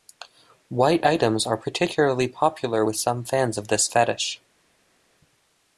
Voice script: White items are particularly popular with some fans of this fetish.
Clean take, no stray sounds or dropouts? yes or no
yes